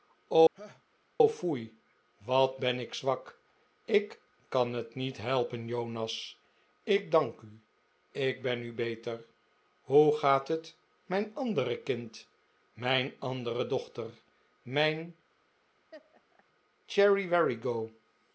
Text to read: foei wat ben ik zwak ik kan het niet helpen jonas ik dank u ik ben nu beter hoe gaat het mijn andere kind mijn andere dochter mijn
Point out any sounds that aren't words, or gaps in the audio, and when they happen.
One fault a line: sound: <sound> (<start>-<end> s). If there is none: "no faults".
sound: laugh (0.5-0.8 s)
sound: laugh (15.9-16.4 s)